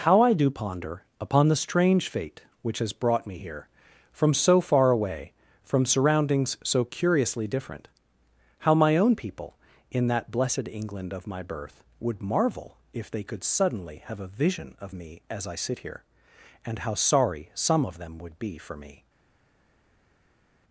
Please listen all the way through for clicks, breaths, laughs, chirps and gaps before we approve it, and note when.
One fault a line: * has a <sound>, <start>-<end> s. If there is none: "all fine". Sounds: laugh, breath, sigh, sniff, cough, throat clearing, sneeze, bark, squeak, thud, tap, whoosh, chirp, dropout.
all fine